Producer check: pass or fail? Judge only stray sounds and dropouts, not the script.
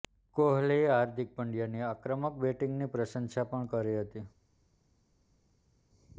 pass